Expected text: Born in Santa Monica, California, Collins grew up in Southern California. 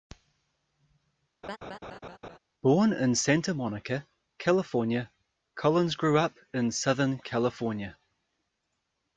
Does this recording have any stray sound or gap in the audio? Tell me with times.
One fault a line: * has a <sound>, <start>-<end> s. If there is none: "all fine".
* has a laugh, 1.4-2.4 s